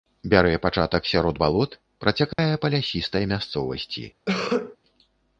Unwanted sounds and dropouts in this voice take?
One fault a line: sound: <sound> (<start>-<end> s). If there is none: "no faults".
sound: dropout (2.3-2.4 s)
sound: cough (4.3-4.8 s)